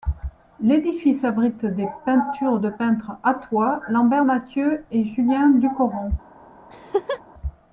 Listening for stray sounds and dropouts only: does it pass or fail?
fail